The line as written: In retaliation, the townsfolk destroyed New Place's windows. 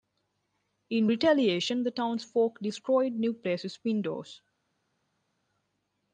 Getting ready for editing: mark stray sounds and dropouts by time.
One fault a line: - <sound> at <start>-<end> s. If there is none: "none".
none